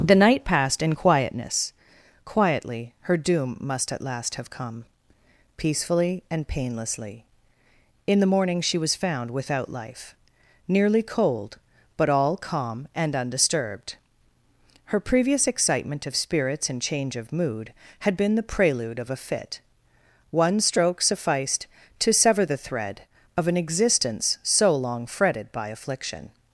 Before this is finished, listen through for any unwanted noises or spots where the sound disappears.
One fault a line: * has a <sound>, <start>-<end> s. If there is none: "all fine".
all fine